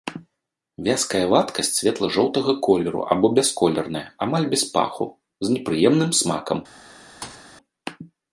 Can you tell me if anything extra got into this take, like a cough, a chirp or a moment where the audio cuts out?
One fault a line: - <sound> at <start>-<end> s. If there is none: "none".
- thud at 7.2-7.5 s